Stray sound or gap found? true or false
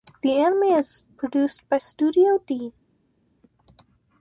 false